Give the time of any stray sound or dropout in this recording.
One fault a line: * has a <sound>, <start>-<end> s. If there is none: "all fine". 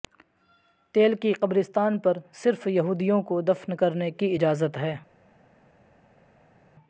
all fine